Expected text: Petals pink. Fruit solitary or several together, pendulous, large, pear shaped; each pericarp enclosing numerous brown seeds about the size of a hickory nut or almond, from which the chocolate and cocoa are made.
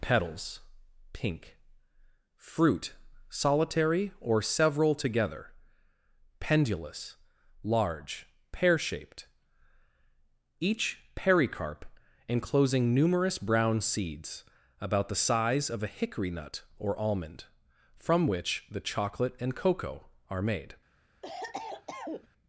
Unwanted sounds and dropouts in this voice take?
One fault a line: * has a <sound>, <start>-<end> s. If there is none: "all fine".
* has a cough, 21.2-22.3 s